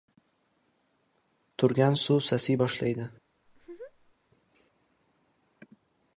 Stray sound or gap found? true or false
true